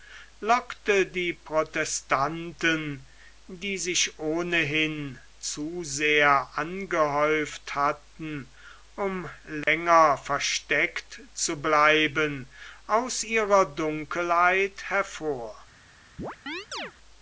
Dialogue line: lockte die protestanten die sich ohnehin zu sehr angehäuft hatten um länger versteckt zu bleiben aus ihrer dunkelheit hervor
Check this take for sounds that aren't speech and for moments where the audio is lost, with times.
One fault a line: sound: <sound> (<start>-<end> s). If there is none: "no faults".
sound: dropout (9.6-9.7 s)
sound: chirp (16.2-16.9 s)